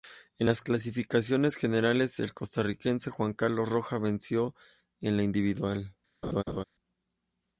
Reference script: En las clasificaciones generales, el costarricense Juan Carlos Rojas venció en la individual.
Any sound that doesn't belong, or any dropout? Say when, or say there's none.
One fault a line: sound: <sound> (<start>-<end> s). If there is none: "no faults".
sound: laugh (6.2-6.6 s)